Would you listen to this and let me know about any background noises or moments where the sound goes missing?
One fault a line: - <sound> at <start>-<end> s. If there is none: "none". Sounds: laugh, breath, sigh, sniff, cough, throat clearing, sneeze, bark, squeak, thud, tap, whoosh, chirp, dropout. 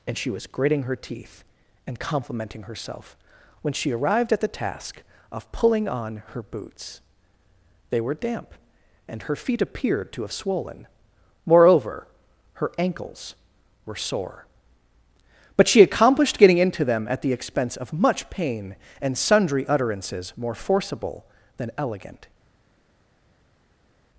none